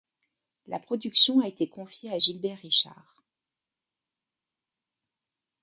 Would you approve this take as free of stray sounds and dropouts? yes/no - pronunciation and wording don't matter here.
yes